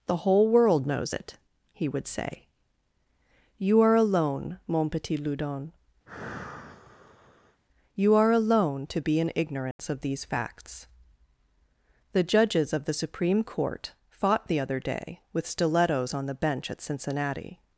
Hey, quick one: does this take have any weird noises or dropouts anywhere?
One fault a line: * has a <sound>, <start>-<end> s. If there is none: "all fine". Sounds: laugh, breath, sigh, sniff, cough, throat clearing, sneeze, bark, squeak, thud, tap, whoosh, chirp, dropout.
* has a sigh, 6.1-7.6 s
* has a dropout, 9.7-9.8 s